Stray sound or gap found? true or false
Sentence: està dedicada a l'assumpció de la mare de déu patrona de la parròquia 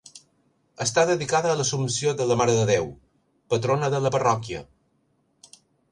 false